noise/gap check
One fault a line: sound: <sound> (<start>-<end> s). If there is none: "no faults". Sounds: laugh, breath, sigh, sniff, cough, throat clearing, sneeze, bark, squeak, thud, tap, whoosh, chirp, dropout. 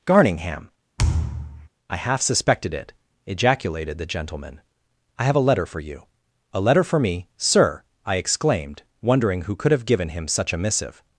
sound: thud (1.0-1.7 s)